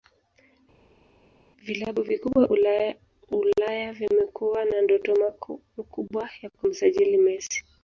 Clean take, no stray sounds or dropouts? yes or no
yes